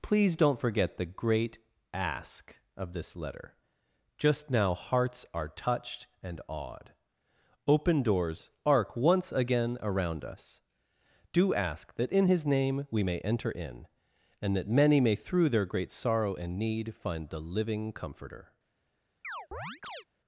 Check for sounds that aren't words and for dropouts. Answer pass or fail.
fail